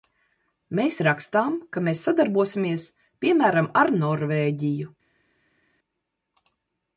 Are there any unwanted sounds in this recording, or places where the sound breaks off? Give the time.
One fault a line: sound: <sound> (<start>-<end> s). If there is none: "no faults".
no faults